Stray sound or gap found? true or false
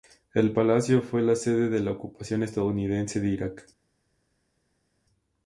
false